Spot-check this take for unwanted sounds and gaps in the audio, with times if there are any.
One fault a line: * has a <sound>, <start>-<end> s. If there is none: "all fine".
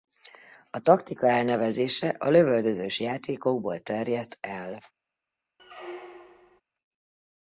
* has a squeak, 5.6-6.6 s